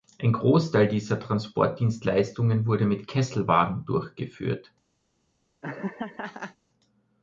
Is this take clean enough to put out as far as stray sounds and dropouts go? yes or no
no